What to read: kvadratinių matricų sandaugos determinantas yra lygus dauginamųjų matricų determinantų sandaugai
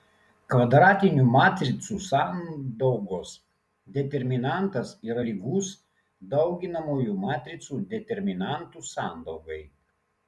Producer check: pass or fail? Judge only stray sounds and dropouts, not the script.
pass